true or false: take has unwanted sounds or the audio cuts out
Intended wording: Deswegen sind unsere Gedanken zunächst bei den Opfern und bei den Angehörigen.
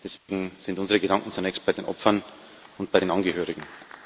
true